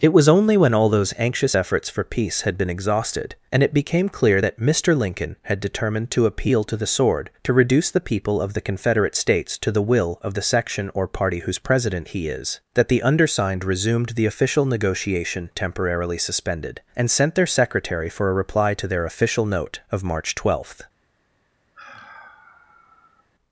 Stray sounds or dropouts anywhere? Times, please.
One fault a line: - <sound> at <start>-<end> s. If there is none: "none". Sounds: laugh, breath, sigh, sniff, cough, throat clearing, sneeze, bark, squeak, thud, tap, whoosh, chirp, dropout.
- sigh at 21.7-23.3 s